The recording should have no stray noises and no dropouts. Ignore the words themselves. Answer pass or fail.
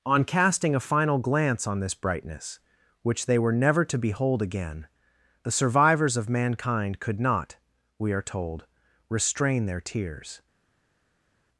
pass